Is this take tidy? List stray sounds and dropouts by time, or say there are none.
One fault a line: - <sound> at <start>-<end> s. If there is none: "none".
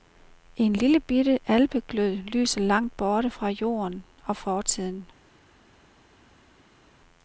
none